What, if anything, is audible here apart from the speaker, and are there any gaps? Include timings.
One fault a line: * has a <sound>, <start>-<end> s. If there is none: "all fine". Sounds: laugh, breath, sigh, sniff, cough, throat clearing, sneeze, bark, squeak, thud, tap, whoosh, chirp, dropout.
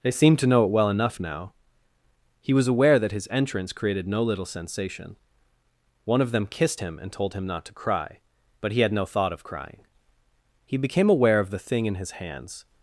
all fine